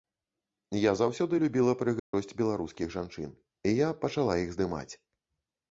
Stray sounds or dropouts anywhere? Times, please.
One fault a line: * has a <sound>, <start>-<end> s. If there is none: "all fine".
* has a dropout, 2.0-2.1 s